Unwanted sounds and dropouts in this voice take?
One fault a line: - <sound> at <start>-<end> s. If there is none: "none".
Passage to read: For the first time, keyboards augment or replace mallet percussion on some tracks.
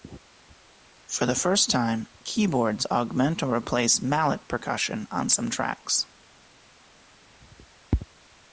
none